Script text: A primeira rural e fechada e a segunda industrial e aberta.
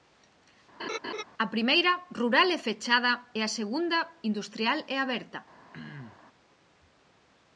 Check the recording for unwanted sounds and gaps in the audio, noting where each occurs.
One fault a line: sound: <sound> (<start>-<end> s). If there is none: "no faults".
sound: laugh (0.8-1.2 s)
sound: throat clearing (5.7-6.2 s)